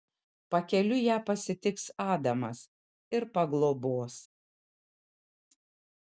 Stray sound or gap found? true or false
false